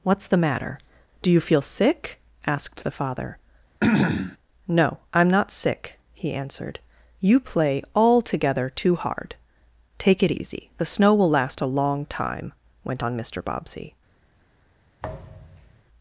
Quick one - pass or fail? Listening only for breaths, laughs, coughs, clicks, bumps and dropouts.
fail